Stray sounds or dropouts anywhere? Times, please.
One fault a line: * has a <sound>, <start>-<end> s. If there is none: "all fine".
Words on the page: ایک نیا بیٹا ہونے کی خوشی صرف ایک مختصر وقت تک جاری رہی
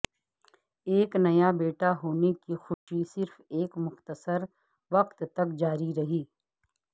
* has a dropout, 2.7-2.9 s